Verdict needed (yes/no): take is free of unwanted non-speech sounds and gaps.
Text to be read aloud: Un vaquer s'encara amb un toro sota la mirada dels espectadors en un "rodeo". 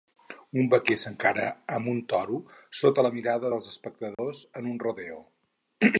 no